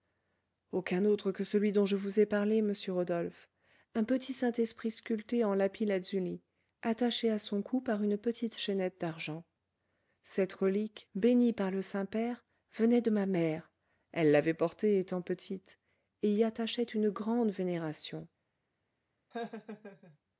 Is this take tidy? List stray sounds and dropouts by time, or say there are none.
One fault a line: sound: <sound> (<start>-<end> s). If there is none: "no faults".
sound: laugh (19.3-20.2 s)